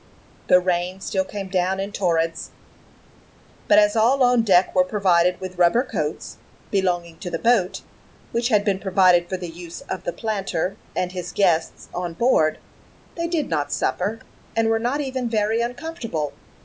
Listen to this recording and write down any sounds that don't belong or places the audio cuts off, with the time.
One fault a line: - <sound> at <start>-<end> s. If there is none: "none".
none